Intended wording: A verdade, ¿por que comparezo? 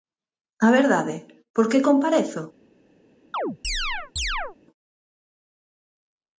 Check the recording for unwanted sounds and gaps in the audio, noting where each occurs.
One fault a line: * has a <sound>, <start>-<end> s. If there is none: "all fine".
* has a chirp, 3.3-4.6 s